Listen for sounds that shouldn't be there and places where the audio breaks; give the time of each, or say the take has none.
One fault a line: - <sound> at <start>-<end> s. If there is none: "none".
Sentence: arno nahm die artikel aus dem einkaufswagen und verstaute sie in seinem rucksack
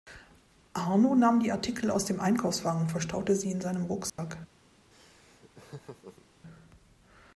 - dropout at 4.1-4.2 s
- laugh at 4.9-6.3 s